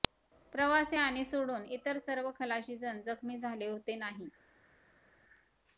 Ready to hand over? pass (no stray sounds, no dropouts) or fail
pass